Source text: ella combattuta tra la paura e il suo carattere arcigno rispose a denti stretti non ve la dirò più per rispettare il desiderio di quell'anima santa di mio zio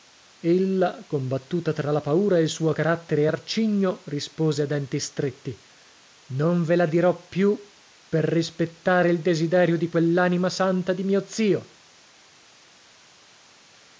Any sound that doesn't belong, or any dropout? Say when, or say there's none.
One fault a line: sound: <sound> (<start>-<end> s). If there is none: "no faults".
no faults